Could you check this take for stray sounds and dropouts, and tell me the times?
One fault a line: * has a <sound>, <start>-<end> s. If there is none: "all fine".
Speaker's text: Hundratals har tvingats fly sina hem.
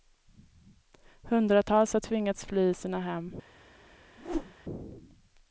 * has a whoosh, 4.2-4.5 s